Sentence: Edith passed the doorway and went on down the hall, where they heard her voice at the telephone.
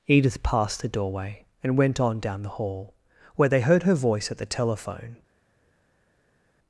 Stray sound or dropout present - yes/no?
no